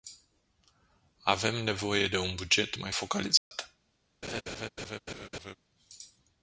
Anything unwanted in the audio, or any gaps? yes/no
yes